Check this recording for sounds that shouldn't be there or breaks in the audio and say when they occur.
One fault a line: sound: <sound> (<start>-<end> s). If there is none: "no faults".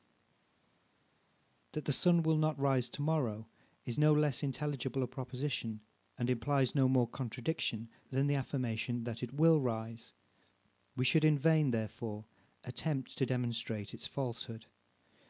no faults